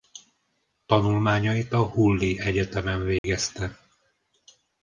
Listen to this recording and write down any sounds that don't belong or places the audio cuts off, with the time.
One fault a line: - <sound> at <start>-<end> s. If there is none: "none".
- dropout at 3.2-3.2 s